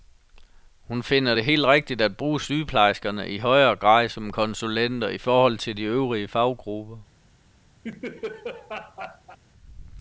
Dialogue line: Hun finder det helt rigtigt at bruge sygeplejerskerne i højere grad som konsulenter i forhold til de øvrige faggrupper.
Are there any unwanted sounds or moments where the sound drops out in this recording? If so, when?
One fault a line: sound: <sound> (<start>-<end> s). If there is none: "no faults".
sound: laugh (7.8-9.4 s)